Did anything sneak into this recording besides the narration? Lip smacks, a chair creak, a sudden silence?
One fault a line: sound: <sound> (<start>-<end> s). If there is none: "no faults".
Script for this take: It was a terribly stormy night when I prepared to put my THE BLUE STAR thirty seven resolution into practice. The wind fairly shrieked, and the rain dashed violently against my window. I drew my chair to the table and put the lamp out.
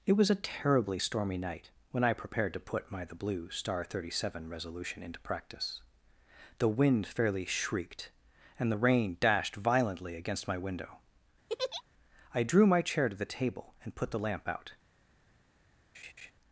sound: laugh (11.5-11.8 s)
sound: laugh (15.9-16.3 s)